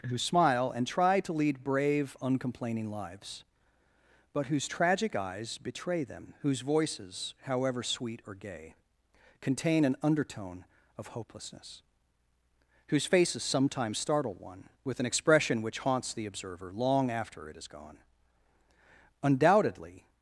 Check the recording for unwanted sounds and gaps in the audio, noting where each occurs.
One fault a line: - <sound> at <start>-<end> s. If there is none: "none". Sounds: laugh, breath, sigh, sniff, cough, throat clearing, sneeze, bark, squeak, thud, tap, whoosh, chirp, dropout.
none